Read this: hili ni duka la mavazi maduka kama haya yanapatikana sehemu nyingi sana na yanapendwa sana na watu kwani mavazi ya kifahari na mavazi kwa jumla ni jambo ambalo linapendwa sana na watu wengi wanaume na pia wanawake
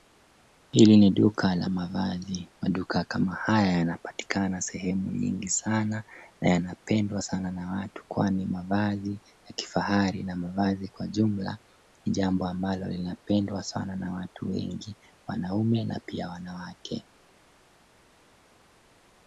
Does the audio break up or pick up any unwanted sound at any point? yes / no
no